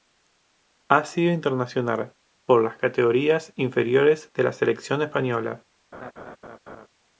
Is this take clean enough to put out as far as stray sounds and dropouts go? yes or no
no